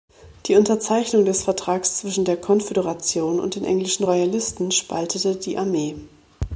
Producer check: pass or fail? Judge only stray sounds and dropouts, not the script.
pass